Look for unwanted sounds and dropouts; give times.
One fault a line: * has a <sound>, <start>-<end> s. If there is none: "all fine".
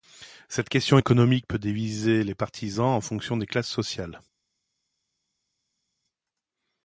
all fine